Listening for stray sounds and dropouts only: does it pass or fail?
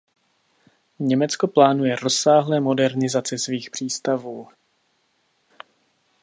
pass